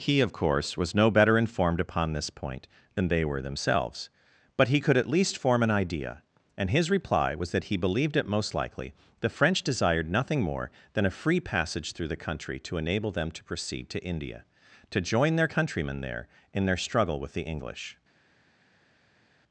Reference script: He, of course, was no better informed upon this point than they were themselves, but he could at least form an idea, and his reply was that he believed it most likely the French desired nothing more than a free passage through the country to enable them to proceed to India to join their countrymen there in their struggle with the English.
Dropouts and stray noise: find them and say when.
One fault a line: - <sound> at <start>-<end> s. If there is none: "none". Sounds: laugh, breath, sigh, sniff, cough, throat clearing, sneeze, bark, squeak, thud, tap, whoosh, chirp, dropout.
none